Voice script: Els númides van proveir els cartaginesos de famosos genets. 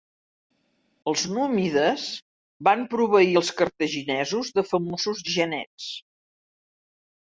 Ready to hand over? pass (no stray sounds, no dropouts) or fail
pass